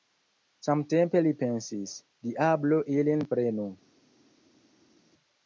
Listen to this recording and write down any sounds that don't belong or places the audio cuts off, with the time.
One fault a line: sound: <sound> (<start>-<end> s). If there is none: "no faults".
no faults